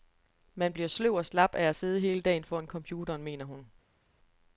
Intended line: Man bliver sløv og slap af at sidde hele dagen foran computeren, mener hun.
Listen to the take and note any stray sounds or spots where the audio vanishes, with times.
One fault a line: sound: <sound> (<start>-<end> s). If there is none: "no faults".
no faults